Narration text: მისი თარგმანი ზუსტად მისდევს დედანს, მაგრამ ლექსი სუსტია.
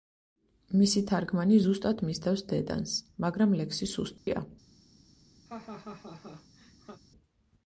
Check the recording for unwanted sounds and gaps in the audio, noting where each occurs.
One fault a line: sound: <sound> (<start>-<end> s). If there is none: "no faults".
sound: dropout (4.2-4.3 s)
sound: laugh (5.5-7.0 s)